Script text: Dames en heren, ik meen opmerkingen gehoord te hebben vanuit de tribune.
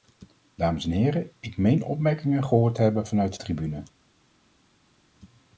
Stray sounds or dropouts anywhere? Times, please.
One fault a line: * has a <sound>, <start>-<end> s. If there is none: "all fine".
all fine